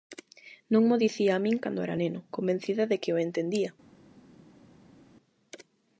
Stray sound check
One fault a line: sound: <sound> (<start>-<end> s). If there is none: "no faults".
no faults